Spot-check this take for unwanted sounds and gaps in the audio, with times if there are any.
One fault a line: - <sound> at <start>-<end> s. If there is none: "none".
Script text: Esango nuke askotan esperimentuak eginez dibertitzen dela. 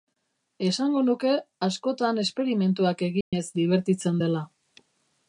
- dropout at 3.2-3.3 s